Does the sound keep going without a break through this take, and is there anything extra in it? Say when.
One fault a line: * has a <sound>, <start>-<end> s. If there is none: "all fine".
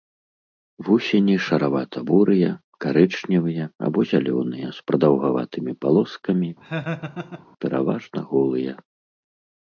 * has a laugh, 6.6-7.5 s